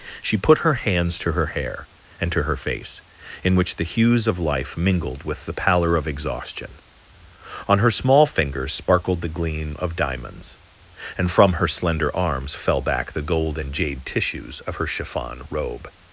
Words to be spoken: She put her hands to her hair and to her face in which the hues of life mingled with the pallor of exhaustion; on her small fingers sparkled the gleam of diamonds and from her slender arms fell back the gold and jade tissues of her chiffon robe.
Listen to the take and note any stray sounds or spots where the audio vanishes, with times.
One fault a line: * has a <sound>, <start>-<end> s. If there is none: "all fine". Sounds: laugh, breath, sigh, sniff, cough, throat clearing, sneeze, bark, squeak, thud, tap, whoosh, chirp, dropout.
all fine